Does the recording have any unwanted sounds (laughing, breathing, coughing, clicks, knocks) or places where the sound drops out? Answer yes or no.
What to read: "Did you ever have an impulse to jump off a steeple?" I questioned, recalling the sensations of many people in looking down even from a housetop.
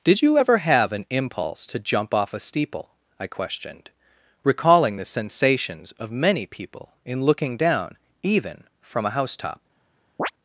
yes